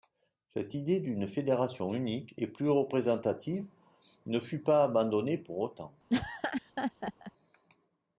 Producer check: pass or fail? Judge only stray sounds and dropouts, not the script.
fail